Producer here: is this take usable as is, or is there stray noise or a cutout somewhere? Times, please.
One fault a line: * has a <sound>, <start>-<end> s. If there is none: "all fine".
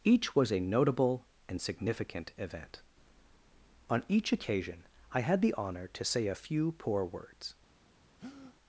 * has a breath, 8.2-8.6 s